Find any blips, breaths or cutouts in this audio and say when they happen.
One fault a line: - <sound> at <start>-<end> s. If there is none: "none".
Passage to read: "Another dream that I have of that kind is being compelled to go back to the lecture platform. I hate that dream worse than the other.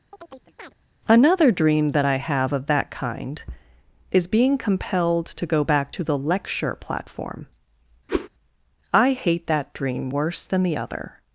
- chirp at 0.1-0.7 s
- whoosh at 8.1-8.3 s